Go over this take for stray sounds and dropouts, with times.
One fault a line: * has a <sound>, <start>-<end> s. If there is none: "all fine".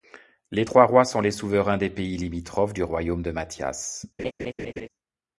* has a laugh, 4.2-4.9 s